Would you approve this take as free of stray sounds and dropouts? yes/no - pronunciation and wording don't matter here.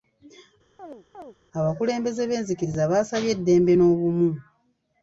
no